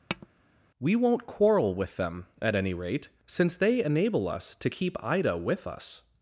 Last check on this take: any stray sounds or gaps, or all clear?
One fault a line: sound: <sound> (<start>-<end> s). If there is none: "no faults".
sound: tap (0.1-0.3 s)